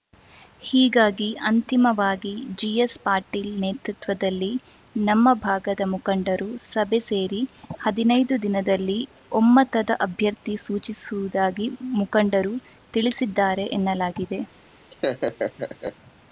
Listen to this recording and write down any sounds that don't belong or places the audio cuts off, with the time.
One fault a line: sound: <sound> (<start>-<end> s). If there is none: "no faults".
sound: laugh (14.9-16.0 s)